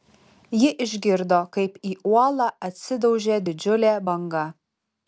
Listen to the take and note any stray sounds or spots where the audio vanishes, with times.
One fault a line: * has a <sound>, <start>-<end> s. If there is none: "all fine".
all fine